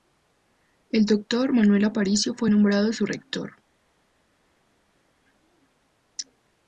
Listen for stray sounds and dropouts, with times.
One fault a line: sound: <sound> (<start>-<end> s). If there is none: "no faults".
no faults